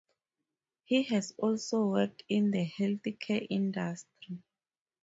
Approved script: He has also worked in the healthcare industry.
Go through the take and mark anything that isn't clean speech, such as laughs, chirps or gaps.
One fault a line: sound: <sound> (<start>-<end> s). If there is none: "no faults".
no faults